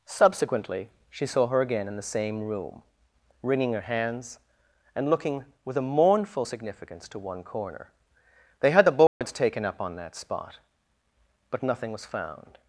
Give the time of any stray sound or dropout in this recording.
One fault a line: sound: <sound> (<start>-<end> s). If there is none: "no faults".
sound: dropout (9.1-9.2 s)